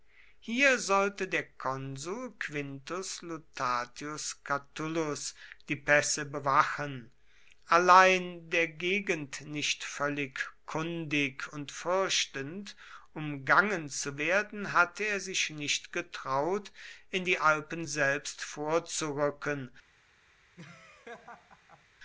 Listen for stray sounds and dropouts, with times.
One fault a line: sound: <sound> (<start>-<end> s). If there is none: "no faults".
sound: laugh (20.6-21.9 s)